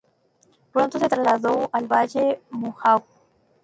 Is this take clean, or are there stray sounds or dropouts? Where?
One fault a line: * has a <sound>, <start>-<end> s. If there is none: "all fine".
all fine